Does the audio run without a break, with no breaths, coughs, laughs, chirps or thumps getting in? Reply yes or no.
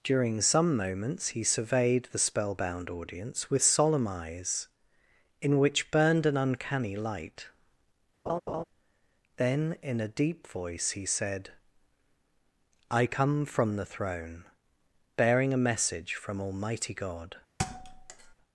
no